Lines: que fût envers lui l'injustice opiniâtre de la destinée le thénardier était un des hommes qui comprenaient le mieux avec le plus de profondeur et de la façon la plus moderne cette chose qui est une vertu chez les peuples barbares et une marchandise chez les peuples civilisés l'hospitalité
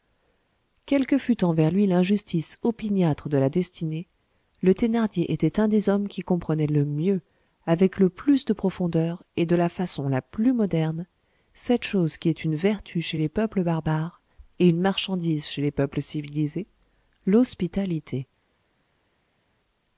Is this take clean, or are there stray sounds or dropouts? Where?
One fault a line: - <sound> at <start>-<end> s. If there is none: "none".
none